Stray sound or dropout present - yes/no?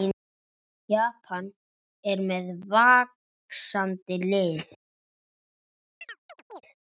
yes